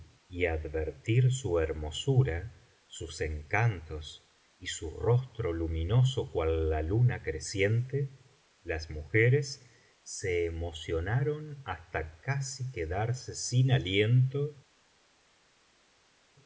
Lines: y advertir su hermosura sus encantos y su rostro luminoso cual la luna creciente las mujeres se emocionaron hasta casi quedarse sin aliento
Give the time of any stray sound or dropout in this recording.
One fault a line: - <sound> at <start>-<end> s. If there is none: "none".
none